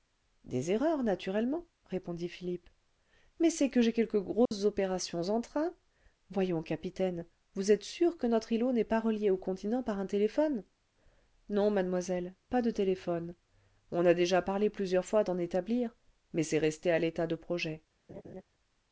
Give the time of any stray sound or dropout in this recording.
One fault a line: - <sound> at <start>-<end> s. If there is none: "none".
- dropout at 4.5-4.5 s
- laugh at 18.1-18.4 s